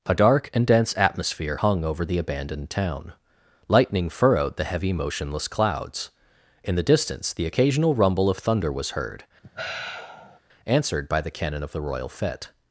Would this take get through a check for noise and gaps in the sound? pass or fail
fail